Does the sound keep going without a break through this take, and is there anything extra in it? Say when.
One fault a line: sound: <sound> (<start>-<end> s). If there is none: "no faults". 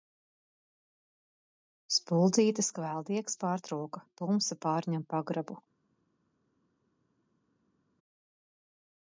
no faults